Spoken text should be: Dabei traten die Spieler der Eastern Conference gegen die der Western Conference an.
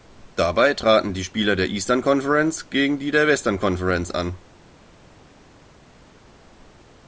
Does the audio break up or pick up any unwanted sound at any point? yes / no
no